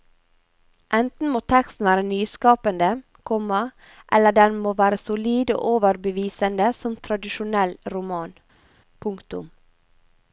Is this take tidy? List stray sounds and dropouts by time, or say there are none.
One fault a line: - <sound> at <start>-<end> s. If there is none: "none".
none